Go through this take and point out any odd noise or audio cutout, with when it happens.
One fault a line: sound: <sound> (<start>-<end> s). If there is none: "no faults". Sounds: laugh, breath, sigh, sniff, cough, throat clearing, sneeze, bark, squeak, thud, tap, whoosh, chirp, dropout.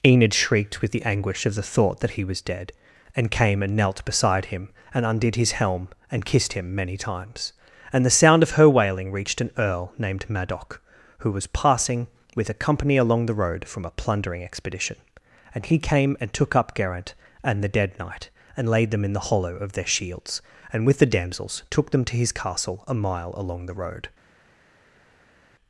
no faults